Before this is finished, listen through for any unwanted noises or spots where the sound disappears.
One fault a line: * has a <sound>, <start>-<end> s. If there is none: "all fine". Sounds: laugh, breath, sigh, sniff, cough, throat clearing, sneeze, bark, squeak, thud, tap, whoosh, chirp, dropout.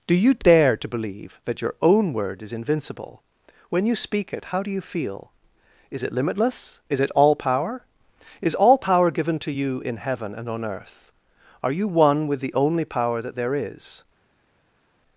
all fine